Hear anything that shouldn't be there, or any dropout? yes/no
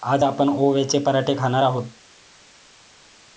no